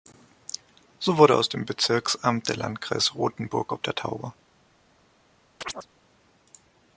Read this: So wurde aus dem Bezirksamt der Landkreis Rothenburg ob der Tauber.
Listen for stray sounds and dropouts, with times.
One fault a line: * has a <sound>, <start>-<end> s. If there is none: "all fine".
* has a chirp, 5.6-5.9 s